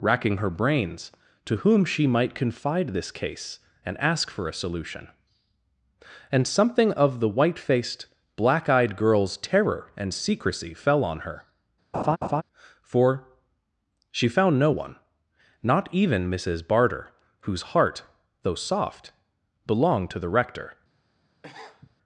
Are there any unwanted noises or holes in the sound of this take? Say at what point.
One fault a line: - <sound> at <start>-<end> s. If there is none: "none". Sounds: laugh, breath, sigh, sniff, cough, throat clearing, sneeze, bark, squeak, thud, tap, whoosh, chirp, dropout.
- laugh at 11.9-12.4 s
- sniff at 21.4-21.9 s